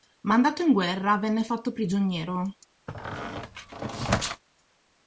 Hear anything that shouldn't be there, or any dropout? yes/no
yes